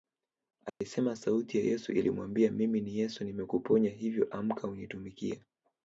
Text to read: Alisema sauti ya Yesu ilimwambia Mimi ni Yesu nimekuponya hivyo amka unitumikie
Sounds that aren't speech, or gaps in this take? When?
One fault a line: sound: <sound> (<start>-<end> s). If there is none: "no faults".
sound: dropout (0.7-0.8 s)